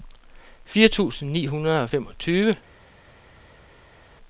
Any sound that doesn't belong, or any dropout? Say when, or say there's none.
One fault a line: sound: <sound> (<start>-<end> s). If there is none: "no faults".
no faults